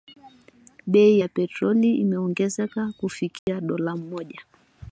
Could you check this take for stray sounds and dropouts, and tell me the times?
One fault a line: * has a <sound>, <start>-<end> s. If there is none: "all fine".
* has a dropout, 3.4-3.5 s